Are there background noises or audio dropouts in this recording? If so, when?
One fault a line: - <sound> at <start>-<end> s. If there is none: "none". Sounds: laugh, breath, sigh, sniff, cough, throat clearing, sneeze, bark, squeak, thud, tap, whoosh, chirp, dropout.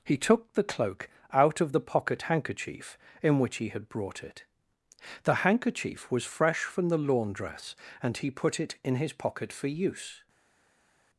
none